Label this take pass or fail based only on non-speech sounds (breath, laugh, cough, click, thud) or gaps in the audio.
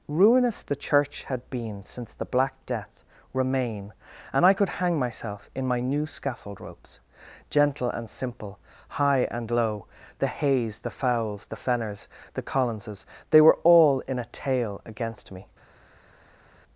pass